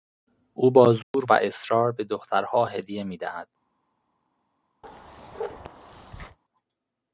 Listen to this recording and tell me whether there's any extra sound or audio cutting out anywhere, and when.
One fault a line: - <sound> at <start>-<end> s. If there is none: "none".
- dropout at 1.0-1.1 s
- bark at 4.8-6.4 s